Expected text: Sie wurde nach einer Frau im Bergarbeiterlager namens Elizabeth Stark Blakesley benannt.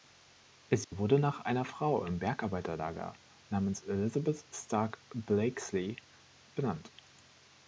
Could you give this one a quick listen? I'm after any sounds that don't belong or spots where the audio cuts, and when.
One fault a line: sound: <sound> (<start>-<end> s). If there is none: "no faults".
sound: dropout (0.8-0.9 s)